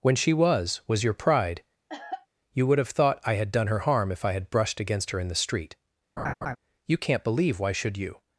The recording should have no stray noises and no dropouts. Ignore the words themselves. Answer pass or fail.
fail